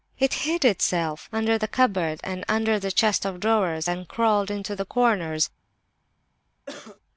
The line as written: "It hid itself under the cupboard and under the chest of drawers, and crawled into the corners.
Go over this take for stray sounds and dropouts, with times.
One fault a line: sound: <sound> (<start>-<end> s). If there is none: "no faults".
sound: cough (6.7-7.0 s)